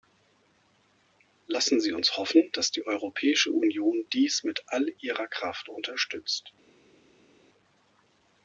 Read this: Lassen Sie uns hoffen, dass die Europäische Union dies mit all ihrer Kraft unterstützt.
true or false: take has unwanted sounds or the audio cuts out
false